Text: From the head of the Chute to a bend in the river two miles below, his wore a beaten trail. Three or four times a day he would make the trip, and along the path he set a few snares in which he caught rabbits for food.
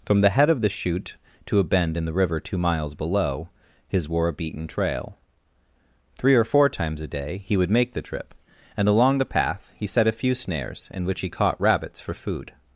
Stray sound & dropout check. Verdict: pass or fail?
pass